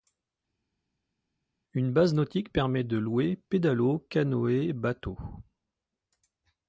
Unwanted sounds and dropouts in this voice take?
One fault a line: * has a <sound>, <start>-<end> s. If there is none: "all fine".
all fine